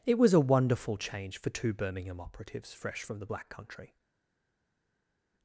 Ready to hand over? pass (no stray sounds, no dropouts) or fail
pass